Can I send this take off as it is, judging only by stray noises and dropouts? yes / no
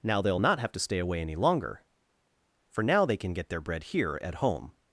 yes